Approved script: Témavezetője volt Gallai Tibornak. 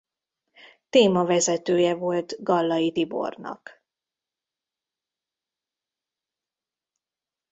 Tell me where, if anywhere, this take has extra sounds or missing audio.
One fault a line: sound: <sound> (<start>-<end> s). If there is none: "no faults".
no faults